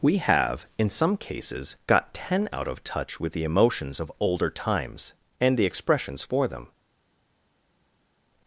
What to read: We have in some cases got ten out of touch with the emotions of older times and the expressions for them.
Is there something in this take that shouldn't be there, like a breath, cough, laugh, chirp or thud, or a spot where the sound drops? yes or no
no